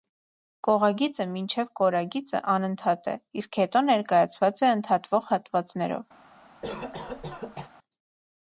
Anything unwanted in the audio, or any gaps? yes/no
yes